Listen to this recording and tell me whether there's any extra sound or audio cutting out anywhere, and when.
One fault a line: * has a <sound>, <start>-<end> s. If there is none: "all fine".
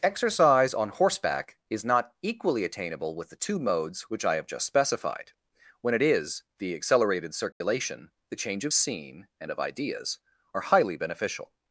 * has a dropout, 7.5-7.6 s